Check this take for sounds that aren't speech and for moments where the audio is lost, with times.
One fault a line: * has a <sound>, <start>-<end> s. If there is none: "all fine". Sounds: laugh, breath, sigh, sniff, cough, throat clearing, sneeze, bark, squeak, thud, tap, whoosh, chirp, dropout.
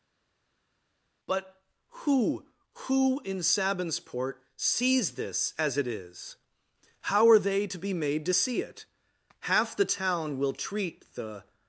all fine